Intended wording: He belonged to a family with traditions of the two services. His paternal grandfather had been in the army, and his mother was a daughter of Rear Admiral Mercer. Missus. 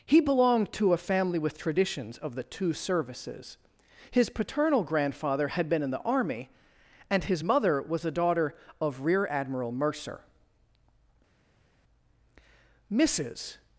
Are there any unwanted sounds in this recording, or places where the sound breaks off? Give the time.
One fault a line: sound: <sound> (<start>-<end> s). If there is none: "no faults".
no faults